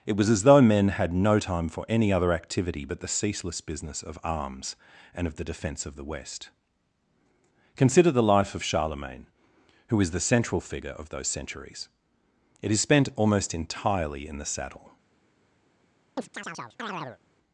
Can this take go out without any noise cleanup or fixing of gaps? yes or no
no